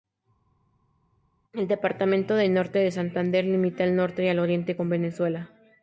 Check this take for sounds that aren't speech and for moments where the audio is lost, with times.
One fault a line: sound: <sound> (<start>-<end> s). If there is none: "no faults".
no faults